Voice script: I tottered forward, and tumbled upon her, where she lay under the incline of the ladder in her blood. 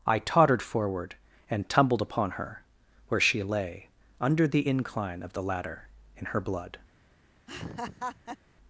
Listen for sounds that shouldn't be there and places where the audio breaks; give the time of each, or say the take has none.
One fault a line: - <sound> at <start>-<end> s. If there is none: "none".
- laugh at 7.5-8.4 s